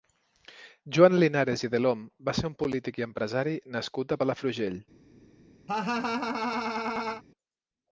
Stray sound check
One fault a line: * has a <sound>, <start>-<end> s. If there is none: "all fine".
* has a laugh, 5.7-7.2 s